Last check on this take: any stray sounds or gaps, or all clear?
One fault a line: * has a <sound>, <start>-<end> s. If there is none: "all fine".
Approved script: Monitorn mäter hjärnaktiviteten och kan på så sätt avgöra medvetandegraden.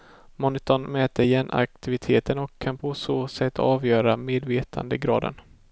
all fine